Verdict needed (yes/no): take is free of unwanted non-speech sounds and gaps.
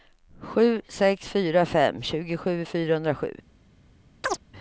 no